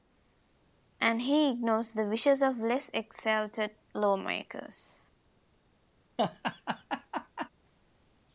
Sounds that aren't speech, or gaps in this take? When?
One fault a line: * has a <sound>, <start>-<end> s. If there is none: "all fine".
* has a laugh, 6.2-7.5 s